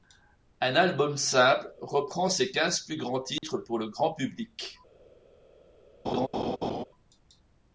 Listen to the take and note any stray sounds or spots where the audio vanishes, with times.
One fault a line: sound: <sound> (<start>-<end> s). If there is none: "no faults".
sound: dropout (3.4-3.4 s)
sound: laugh (6.0-6.8 s)